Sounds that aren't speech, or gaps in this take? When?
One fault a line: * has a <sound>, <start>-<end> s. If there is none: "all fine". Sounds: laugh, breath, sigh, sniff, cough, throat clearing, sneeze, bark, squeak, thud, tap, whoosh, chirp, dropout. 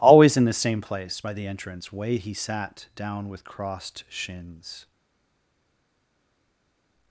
all fine